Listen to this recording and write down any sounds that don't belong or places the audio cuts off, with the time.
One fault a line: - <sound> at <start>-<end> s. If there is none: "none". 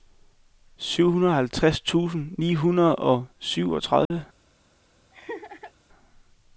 - dropout at 4.0-4.1 s
- laugh at 5.1-5.7 s